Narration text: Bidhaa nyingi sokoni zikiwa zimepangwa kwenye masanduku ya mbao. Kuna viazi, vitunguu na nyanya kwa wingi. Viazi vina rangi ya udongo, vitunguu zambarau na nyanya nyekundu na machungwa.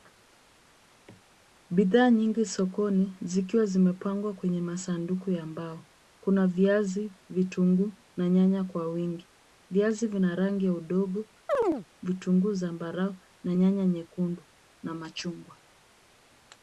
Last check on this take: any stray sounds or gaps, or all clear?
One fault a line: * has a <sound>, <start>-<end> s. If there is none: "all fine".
* has a chirp, 11.5-11.9 s